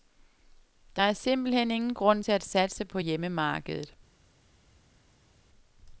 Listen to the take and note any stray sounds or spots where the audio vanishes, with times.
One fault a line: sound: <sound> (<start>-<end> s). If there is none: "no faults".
no faults